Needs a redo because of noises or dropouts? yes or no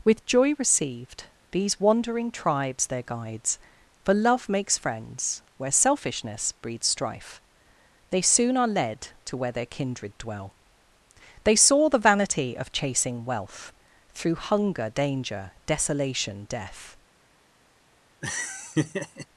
yes